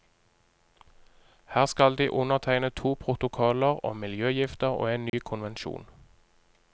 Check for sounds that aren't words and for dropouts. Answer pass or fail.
fail